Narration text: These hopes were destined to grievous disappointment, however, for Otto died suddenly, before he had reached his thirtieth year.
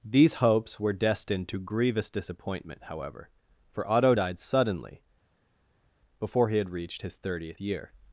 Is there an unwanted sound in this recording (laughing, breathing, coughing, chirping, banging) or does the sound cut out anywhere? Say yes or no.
no